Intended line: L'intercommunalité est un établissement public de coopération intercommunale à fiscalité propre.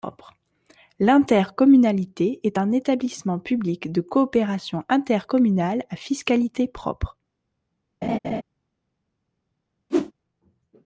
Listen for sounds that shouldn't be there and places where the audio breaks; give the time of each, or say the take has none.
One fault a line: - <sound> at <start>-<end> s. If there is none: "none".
- laugh at 8.0-8.4 s
- whoosh at 9.9-10.1 s